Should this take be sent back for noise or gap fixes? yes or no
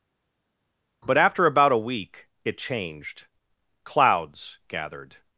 no